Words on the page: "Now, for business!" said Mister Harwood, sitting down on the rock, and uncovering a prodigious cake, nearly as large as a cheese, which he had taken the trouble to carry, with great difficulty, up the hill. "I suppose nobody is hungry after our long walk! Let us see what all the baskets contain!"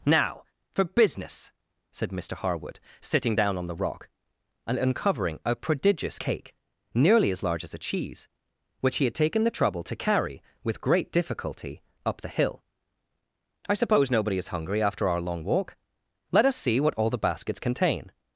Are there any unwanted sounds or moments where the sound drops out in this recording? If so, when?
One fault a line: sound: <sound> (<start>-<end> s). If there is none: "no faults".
no faults